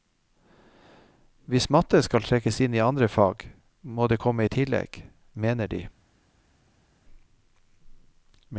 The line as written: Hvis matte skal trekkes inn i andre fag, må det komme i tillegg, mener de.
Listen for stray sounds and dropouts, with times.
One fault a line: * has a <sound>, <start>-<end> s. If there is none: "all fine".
all fine